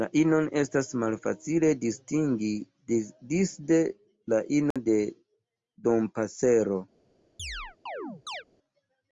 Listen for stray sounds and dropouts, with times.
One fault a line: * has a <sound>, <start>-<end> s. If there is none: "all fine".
* has a dropout, 4.7-4.8 s
* has a chirp, 7.4-8.4 s